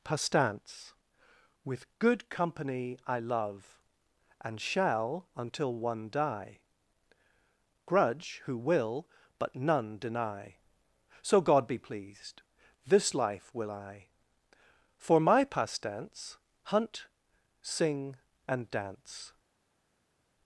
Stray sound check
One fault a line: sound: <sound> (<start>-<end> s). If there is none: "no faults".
no faults